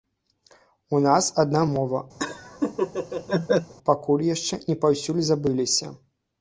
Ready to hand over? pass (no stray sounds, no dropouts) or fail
fail